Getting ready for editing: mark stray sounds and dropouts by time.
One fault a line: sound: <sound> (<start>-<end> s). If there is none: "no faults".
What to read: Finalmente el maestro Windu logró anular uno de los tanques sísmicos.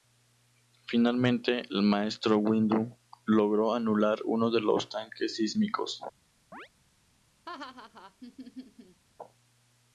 sound: chirp (6.5-6.7 s)
sound: laugh (7.5-9.0 s)